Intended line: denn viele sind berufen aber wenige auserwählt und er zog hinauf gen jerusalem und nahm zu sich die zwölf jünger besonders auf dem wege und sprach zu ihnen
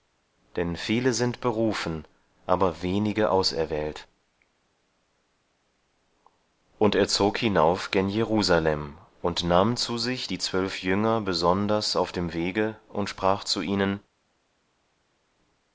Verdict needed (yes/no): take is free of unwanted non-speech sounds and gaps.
yes